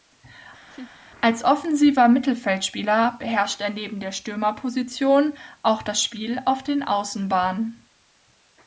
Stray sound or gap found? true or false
true